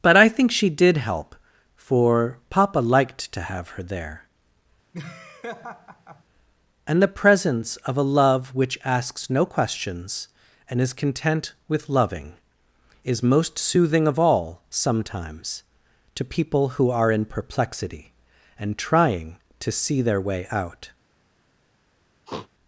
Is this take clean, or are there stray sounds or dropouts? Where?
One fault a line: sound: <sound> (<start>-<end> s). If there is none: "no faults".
sound: laugh (4.9-6.2 s)
sound: sniff (22.3-22.5 s)